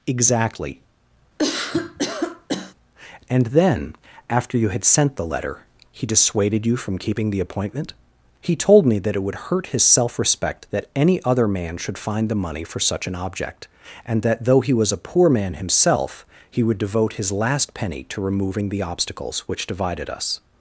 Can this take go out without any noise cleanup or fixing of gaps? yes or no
no